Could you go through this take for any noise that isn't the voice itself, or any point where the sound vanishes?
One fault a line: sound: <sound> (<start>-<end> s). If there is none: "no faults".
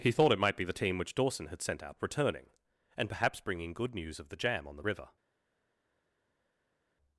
no faults